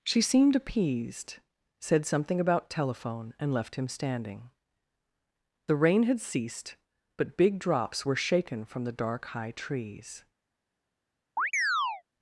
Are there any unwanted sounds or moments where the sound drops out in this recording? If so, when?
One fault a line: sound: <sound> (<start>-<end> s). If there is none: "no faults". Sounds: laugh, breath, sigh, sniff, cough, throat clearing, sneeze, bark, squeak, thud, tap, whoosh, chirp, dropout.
sound: chirp (11.4-12.0 s)